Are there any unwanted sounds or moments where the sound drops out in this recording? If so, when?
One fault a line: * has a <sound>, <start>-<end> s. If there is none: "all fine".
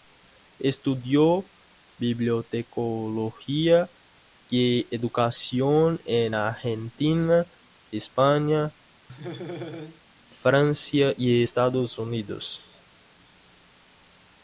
* has a laugh, 9.1-10.0 s